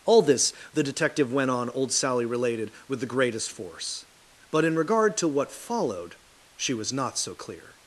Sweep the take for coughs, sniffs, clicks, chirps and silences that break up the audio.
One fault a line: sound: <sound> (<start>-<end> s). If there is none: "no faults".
no faults